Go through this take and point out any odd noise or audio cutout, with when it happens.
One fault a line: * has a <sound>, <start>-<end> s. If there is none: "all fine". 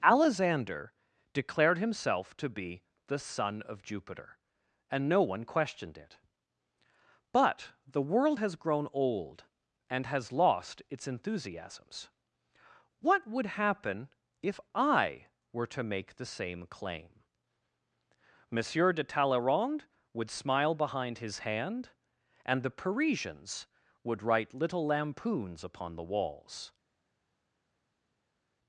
all fine